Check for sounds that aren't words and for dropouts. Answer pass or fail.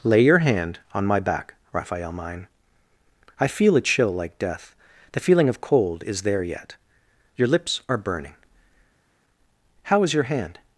pass